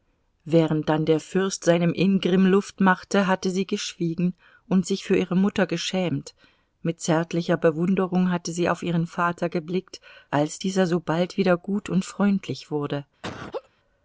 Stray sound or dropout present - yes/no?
yes